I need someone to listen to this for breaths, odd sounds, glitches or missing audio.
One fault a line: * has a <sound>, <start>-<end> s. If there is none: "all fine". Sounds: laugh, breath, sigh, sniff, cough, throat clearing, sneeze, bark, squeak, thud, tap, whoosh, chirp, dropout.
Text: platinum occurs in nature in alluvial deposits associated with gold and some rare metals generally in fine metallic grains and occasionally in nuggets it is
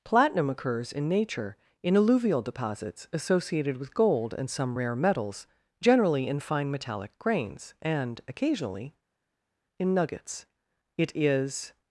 all fine